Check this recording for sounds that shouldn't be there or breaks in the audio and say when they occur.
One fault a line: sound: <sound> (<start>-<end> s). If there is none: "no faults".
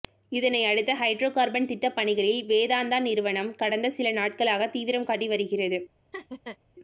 sound: laugh (6.1-6.6 s)